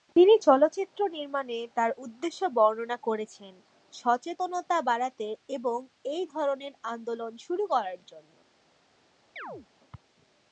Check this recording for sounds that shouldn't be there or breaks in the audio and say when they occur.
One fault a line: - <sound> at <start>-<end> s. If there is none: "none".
- chirp at 9.4-9.7 s